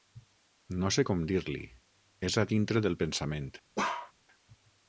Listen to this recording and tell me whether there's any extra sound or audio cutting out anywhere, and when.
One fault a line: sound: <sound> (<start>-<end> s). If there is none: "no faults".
sound: bark (3.8-4.1 s)